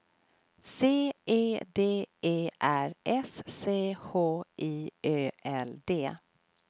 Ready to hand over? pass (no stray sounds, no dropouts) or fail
pass